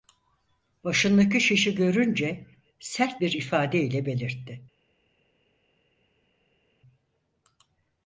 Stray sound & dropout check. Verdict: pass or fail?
pass